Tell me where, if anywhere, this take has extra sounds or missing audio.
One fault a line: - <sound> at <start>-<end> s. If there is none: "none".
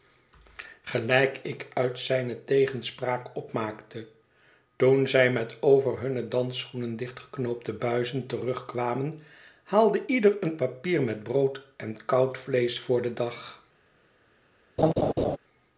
- laugh at 14.8-15.4 s